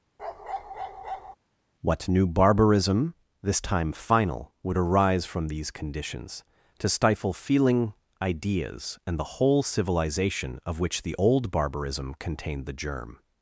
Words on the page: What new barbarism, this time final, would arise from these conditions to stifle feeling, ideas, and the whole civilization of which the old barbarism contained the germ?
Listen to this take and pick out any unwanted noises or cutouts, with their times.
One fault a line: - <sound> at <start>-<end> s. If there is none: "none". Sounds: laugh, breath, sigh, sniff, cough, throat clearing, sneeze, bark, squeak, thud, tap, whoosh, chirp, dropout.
- bark at 0.2-1.4 s